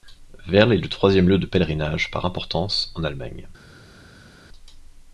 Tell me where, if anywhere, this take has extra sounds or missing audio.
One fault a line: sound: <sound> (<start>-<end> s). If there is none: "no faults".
no faults